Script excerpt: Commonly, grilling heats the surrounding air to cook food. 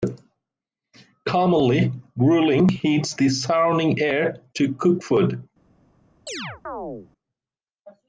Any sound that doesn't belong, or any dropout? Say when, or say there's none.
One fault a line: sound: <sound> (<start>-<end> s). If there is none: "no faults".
sound: chirp (6.3-7.1 s)